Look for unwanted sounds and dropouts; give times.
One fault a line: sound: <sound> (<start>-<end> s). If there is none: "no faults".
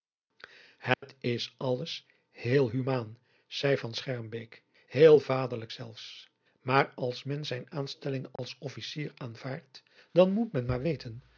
sound: dropout (0.9-1.0 s)
sound: dropout (8.4-8.4 s)